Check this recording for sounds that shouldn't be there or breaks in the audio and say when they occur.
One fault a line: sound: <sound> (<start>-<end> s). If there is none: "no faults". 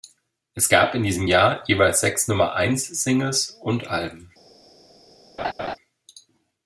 sound: laugh (5.4-5.8 s)